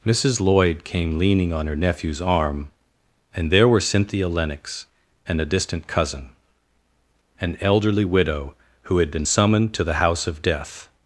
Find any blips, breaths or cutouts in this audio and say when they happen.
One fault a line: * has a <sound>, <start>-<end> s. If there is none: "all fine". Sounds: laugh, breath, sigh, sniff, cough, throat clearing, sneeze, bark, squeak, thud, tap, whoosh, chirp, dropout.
all fine